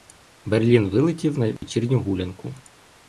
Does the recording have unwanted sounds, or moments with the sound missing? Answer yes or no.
yes